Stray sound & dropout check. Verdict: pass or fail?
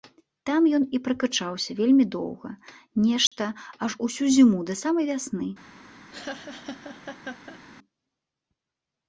fail